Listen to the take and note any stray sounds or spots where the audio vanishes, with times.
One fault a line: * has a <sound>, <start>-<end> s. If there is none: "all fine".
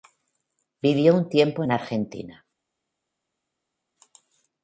all fine